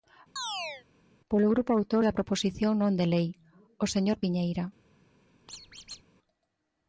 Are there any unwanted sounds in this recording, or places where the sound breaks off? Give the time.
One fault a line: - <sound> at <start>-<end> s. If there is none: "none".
- chirp at 0.4-0.9 s
- squeak at 5.5-6.0 s